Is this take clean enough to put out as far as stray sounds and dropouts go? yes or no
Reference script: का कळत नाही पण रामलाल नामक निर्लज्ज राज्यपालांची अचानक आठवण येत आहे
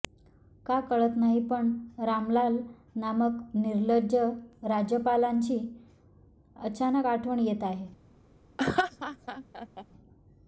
no